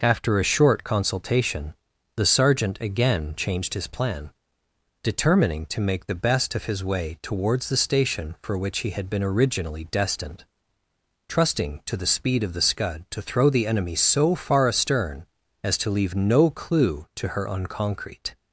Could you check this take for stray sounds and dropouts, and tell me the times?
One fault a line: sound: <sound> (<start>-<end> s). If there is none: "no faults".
no faults